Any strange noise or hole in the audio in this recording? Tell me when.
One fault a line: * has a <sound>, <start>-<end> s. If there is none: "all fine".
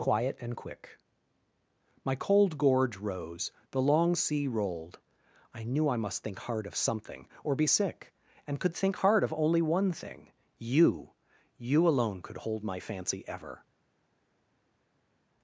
all fine